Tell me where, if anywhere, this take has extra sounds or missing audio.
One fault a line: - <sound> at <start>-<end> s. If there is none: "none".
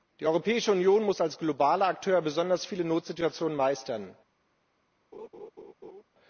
- laugh at 5.1-6.0 s